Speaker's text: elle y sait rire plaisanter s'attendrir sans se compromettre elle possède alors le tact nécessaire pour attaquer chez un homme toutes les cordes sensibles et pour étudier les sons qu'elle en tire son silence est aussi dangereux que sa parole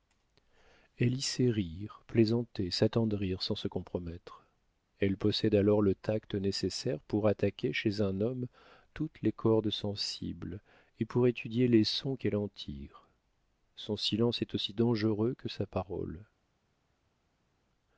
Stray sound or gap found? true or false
false